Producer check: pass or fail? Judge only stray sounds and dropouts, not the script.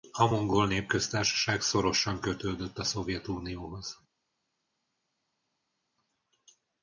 pass